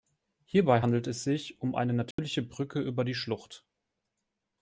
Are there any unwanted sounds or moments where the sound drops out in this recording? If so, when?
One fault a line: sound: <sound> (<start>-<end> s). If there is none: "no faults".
sound: dropout (2.1-2.2 s)